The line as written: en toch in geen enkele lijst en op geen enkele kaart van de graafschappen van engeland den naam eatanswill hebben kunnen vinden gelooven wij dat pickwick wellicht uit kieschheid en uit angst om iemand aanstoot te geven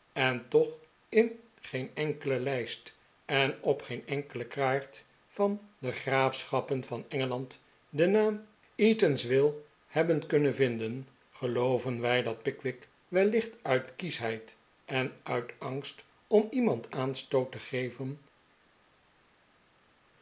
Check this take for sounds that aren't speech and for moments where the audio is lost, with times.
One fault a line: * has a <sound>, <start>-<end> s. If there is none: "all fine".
all fine